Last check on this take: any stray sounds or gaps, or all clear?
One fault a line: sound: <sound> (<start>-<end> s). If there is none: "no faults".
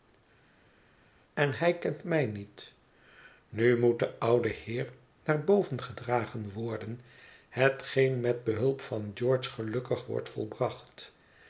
no faults